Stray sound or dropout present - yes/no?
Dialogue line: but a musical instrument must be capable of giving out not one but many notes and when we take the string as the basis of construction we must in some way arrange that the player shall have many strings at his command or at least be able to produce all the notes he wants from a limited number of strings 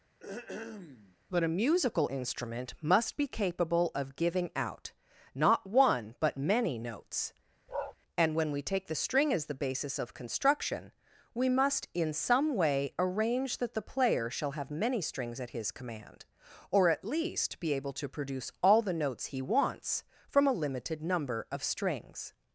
yes